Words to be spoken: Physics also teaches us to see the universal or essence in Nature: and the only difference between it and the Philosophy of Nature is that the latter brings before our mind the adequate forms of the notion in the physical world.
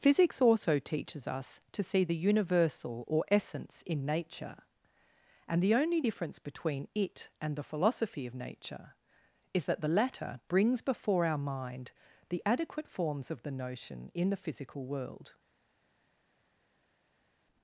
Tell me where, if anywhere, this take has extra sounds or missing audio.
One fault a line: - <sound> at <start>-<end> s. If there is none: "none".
none